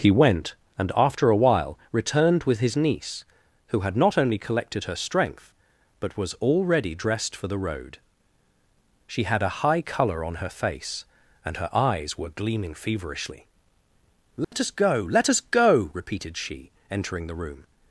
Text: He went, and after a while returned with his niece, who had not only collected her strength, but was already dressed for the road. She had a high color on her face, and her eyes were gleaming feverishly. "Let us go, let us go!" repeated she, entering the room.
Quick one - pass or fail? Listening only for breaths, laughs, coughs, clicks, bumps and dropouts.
fail